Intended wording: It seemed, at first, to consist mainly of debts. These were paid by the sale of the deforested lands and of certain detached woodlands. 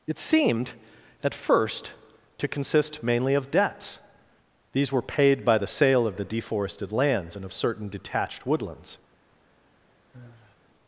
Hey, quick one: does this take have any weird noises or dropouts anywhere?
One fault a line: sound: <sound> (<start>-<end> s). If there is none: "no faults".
sound: sigh (10.1-10.6 s)